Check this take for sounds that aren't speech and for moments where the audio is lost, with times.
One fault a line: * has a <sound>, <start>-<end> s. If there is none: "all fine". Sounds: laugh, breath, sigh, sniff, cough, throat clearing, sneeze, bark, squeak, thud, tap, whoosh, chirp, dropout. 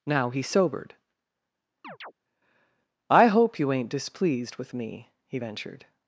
* has a chirp, 1.8-2.1 s